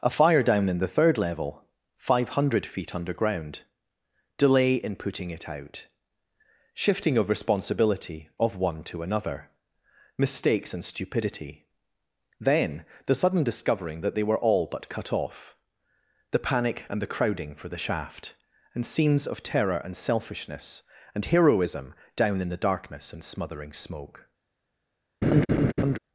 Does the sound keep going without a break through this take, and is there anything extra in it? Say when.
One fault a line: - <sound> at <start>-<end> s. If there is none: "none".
- laugh at 25.2-26.0 s